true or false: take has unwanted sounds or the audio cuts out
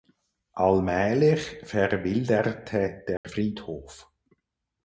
true